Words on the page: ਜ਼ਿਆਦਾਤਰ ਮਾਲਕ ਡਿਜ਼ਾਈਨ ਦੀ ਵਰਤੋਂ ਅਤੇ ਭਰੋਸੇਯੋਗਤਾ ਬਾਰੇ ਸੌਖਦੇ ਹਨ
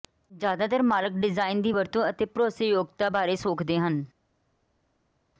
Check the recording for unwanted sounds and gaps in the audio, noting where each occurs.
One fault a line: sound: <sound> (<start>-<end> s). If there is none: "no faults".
no faults